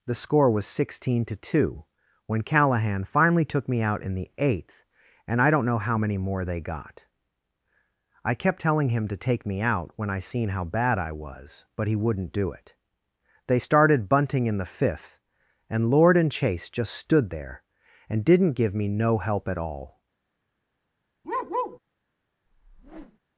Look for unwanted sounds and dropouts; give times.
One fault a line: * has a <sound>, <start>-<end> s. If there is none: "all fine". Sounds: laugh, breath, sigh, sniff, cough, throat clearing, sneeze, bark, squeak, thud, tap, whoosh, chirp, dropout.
* has a bark, 21.2-21.8 s
* has a whoosh, 22.5-23.2 s